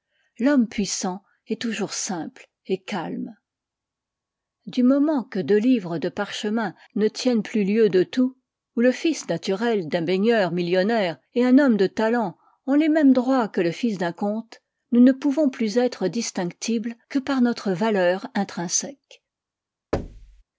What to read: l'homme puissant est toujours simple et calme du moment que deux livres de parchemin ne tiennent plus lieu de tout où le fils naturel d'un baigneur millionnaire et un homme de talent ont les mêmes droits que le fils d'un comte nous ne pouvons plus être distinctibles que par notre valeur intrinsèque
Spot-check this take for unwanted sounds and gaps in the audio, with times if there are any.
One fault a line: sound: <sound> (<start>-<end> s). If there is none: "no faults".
sound: thud (19.9-20.4 s)